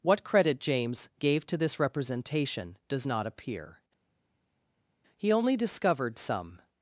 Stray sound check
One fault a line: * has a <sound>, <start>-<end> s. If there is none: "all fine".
all fine